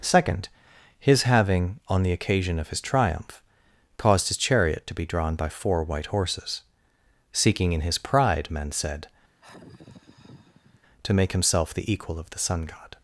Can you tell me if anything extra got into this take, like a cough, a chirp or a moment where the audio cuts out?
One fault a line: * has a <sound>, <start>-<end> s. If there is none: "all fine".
* has a sigh, 9.4-10.8 s